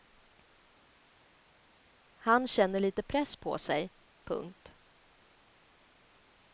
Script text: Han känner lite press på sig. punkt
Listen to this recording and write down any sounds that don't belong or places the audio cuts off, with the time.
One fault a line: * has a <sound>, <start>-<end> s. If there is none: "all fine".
all fine